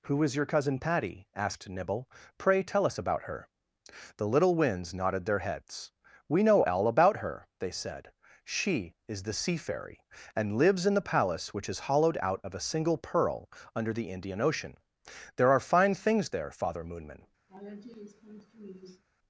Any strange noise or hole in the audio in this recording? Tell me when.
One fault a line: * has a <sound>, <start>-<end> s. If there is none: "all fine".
* has a laugh, 17.5-19.0 s